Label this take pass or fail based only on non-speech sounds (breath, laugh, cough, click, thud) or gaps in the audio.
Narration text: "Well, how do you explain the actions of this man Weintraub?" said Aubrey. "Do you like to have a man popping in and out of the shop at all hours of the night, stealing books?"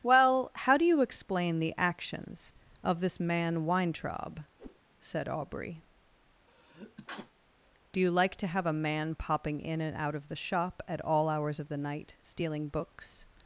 fail